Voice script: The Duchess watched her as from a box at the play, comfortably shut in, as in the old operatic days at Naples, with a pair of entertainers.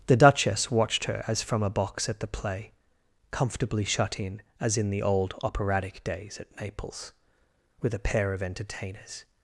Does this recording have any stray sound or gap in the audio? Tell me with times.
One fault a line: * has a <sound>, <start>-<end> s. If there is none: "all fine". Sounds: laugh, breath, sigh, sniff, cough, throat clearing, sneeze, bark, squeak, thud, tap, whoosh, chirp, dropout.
all fine